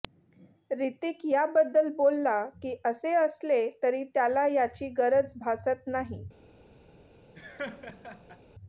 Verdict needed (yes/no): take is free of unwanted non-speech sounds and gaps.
no